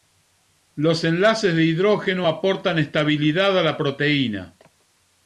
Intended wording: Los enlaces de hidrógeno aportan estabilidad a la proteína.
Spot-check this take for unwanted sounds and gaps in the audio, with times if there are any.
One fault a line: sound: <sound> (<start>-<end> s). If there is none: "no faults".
no faults